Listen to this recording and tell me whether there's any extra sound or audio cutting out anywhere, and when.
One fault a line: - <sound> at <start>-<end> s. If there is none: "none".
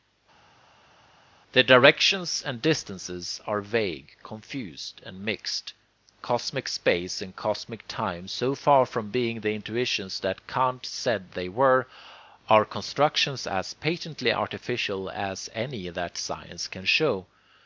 none